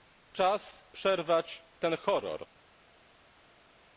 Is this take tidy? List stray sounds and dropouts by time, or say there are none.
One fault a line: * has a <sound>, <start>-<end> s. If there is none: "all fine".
all fine